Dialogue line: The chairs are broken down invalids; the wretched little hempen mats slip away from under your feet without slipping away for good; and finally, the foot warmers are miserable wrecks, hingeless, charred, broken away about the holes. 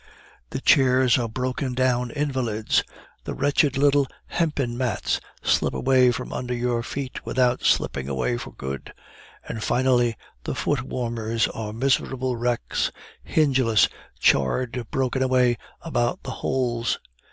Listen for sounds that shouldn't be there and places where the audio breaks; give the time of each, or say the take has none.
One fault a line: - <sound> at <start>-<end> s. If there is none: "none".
none